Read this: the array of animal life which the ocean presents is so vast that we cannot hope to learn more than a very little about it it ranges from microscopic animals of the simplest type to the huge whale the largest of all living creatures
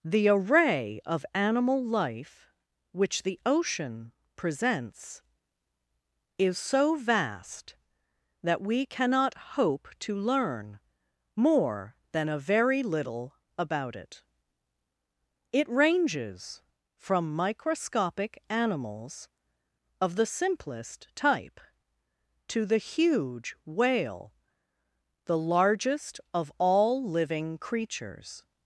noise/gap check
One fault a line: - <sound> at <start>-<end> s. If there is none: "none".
none